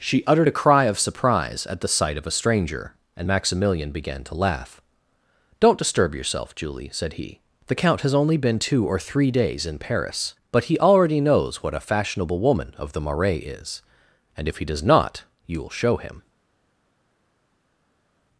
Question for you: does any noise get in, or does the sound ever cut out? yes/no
no